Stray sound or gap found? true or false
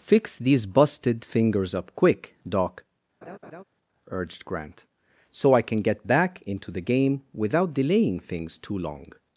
true